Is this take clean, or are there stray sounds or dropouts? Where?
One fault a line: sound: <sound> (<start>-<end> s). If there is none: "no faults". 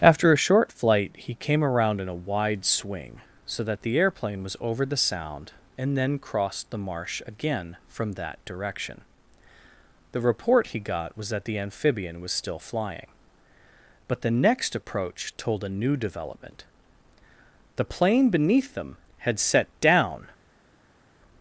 no faults